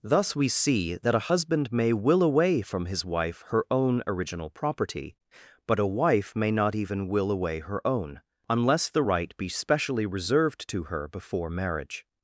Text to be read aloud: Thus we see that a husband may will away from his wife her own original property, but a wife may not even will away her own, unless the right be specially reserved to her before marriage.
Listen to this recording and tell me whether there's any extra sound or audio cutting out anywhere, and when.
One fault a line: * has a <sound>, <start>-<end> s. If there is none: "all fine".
all fine